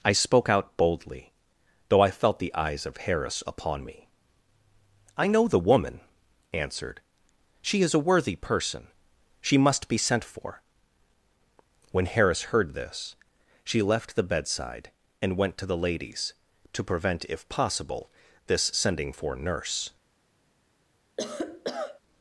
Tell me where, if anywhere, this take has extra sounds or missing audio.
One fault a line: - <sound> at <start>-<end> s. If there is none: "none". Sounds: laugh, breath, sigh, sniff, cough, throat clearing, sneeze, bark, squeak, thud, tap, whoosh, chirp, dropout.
- cough at 21.2-22.0 s